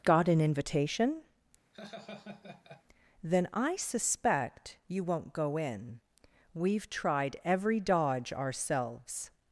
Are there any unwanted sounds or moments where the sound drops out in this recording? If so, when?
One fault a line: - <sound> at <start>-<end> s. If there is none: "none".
- laugh at 1.7-2.8 s